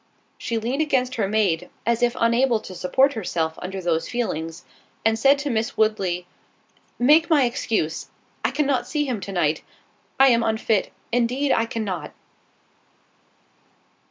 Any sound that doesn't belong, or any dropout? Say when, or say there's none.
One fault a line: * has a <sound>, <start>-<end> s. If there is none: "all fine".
all fine